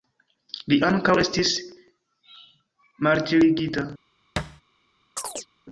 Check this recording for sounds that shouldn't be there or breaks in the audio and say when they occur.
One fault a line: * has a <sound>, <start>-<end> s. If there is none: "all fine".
* has a thud, 4.4-4.6 s
* has a chirp, 5.2-5.5 s